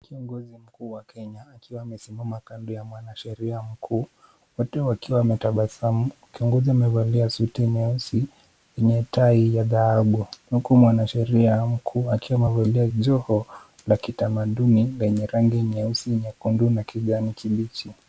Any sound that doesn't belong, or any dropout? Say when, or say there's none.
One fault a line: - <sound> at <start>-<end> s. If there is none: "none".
none